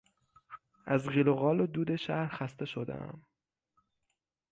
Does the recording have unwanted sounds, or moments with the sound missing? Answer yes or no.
no